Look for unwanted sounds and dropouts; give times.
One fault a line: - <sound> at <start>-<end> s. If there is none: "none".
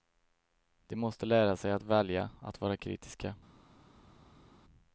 none